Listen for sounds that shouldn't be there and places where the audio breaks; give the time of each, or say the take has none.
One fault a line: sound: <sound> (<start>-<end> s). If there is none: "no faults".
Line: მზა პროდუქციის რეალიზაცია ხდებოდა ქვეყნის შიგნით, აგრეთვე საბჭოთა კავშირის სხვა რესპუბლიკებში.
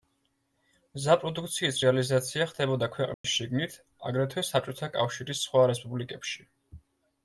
sound: dropout (3.1-3.2 s)